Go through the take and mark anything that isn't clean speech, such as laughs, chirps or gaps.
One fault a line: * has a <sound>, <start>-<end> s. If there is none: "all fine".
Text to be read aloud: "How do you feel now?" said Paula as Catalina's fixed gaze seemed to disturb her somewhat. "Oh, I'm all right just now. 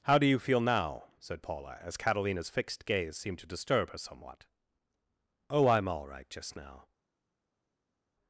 all fine